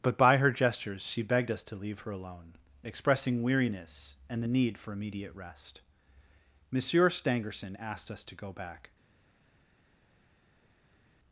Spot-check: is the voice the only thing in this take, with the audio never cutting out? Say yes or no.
yes